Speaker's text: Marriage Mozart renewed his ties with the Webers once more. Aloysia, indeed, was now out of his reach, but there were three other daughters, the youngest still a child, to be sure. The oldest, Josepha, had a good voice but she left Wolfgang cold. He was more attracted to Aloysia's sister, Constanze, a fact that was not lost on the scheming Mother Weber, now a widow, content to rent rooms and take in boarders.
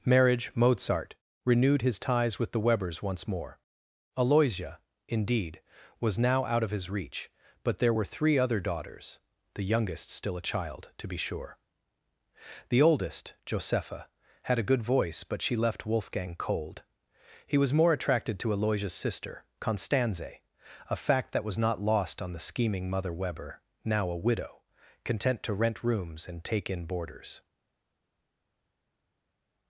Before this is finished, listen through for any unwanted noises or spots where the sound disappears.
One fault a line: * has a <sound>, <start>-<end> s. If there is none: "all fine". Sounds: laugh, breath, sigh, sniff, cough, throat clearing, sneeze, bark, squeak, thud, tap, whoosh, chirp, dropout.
all fine